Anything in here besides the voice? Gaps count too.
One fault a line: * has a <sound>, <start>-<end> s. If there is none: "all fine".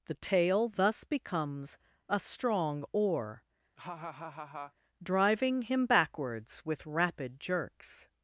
* has a laugh, 3.8-4.7 s